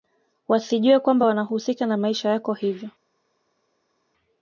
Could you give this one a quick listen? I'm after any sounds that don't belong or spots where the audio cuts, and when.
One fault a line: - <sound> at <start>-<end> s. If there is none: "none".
none